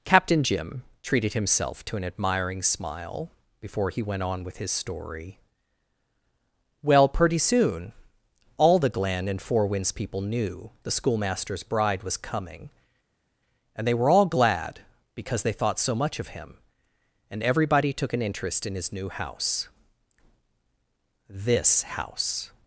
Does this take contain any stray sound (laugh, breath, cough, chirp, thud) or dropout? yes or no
no